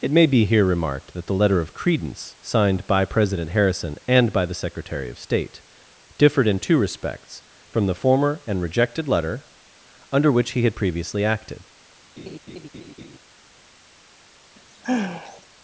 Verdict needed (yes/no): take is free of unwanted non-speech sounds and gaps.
no